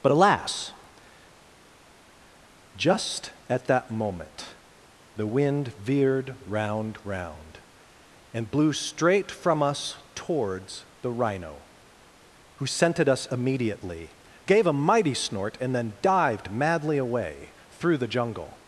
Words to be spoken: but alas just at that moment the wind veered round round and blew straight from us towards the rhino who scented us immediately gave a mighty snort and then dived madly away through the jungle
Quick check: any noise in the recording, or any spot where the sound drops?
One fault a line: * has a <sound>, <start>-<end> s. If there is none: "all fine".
all fine